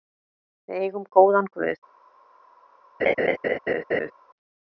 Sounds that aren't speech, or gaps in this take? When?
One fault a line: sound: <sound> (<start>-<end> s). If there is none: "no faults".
sound: laugh (3.0-4.1 s)